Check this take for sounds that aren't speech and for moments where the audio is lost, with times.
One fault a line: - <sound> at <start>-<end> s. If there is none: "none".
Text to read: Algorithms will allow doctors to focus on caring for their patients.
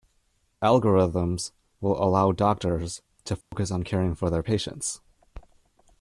- dropout at 3.4-3.5 s